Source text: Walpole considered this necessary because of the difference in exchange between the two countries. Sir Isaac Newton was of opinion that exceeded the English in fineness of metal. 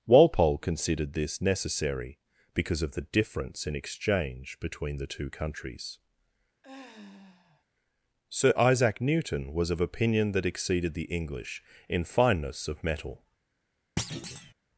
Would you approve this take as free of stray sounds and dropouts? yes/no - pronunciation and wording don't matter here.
no